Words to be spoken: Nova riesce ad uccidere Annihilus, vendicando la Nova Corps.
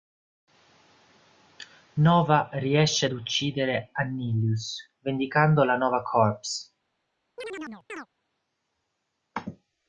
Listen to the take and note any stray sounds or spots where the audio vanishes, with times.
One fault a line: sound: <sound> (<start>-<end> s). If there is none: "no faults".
sound: chirp (7.4-8.1 s)